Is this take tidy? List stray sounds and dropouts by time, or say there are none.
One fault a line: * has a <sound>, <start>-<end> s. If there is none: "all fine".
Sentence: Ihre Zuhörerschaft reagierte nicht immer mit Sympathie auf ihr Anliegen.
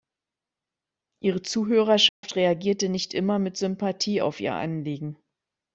* has a dropout, 2.1-2.2 s